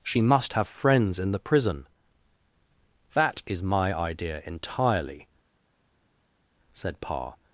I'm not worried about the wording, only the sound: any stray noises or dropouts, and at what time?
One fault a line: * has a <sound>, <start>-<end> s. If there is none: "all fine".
all fine